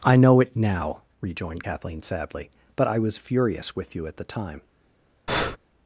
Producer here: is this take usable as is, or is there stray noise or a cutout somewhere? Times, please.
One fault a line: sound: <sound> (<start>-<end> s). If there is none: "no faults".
sound: breath (5.3-5.6 s)